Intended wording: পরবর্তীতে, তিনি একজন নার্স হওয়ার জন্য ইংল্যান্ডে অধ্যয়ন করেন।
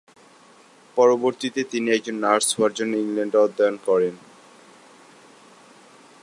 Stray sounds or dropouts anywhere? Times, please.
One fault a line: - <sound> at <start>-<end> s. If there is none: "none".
none